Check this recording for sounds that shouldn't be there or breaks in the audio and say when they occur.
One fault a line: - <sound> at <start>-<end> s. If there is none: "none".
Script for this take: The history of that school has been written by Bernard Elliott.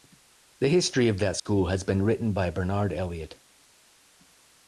- dropout at 1.4-1.5 s